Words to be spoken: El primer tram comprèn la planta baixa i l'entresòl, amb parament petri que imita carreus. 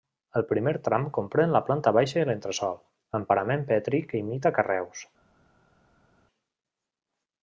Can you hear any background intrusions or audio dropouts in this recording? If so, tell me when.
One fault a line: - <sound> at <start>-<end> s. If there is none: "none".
none